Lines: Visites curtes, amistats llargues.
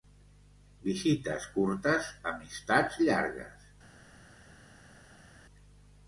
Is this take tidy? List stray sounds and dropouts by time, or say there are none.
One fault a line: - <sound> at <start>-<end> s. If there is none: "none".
none